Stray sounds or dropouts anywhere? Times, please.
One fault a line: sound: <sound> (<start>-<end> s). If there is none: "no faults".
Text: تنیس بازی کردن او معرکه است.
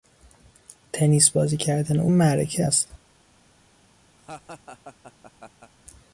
sound: laugh (4.2-5.7 s)